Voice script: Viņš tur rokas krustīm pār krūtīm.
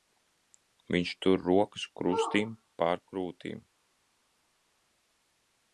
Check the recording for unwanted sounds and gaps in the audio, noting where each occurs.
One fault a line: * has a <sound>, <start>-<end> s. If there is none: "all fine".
all fine